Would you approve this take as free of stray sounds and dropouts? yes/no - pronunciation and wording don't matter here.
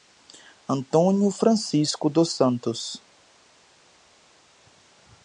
yes